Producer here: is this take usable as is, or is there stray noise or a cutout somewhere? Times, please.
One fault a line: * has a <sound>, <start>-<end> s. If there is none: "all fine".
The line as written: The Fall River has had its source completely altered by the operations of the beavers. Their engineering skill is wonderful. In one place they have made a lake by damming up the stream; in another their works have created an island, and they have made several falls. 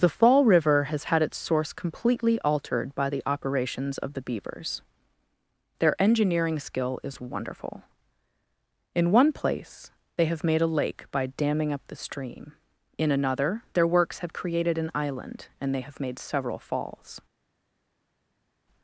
all fine